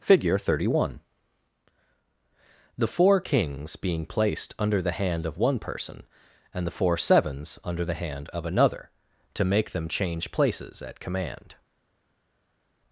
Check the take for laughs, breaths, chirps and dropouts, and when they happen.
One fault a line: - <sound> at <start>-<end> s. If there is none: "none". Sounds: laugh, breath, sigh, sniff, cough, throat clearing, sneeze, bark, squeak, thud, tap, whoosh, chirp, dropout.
none